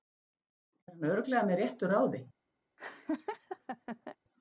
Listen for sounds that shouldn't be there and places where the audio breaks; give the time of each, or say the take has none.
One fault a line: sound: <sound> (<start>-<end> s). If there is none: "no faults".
sound: laugh (2.8-4.2 s)